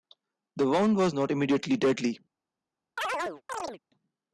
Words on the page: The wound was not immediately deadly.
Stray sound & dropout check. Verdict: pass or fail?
fail